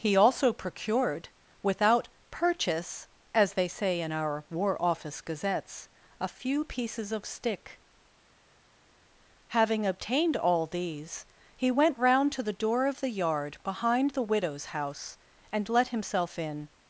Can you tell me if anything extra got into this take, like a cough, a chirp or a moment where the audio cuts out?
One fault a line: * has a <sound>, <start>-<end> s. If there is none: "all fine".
all fine